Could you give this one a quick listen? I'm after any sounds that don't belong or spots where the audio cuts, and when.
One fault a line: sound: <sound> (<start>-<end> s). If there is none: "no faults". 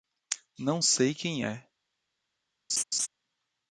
sound: laugh (2.7-3.1 s)